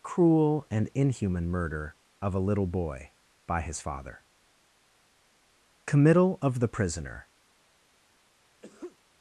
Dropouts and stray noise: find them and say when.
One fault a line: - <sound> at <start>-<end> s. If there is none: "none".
- sneeze at 8.6-9.0 s